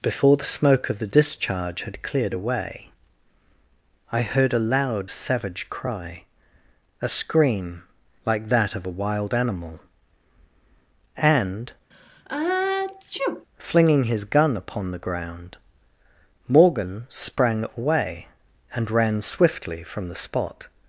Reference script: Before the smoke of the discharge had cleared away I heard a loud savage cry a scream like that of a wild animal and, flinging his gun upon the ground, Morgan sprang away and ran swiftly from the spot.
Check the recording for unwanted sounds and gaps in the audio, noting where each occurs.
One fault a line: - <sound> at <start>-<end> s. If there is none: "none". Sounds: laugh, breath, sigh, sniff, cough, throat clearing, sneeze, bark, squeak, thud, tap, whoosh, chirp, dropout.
- sneeze at 11.9-13.5 s